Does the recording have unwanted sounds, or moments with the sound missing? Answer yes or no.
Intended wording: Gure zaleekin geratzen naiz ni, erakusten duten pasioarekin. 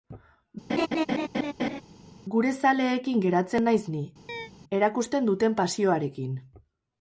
yes